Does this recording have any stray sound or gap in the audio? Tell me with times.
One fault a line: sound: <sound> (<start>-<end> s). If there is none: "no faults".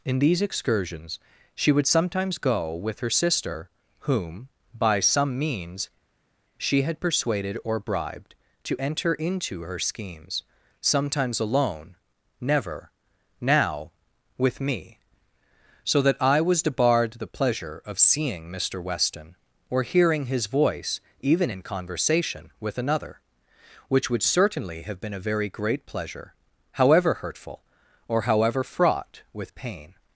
no faults